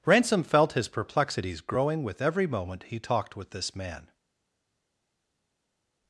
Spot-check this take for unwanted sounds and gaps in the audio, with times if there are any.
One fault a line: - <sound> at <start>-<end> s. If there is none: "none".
none